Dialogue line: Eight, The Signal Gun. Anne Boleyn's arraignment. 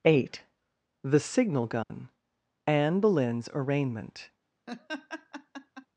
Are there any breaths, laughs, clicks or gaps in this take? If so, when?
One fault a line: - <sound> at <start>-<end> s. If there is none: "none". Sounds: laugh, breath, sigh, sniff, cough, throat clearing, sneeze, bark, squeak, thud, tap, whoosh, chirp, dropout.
- dropout at 1.8-1.9 s
- laugh at 4.7-5.9 s